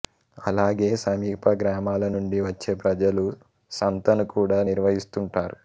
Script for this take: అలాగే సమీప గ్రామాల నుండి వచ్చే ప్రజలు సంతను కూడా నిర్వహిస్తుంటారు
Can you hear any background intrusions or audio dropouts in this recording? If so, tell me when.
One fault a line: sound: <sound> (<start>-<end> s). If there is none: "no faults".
no faults